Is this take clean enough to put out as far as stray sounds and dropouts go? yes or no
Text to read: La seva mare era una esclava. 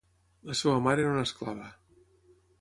yes